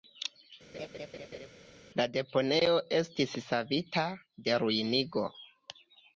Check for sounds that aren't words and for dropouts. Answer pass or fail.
fail